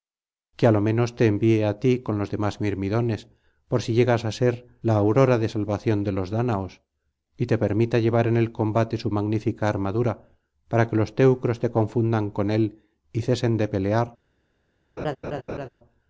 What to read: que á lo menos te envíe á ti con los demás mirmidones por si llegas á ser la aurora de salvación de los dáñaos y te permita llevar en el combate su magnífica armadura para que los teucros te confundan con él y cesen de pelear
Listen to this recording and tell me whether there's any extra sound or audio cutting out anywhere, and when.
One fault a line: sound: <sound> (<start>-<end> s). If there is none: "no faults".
sound: laugh (15.0-15.7 s)